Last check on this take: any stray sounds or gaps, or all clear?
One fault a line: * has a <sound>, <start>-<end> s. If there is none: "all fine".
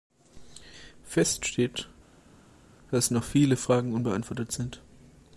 all fine